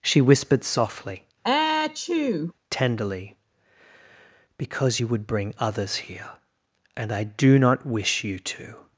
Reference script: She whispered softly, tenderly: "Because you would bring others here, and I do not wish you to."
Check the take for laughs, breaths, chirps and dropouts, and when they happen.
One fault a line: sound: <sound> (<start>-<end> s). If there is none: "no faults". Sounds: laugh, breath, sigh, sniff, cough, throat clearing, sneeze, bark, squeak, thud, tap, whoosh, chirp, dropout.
sound: sneeze (1.4-2.5 s)